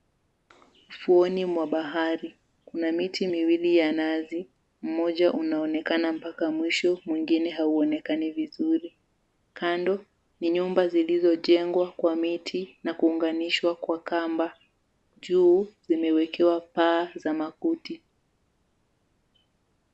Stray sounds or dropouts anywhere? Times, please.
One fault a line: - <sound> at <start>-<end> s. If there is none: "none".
none